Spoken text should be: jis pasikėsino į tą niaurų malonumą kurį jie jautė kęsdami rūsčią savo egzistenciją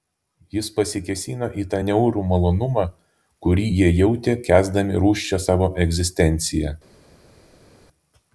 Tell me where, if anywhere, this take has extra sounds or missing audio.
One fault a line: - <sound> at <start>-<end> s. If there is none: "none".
none